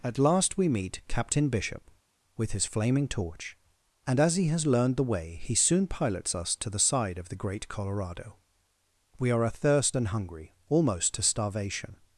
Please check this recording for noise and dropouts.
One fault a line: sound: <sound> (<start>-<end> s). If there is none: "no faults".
no faults